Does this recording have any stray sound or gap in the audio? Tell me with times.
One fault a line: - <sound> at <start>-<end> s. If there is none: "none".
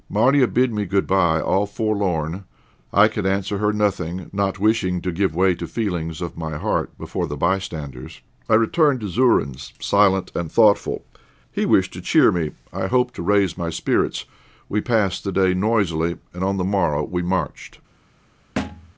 - thud at 18.6-18.9 s